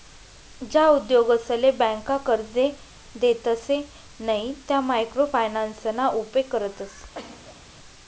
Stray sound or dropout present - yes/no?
yes